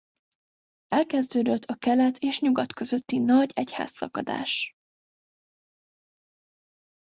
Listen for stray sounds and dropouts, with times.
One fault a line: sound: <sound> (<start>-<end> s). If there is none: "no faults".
no faults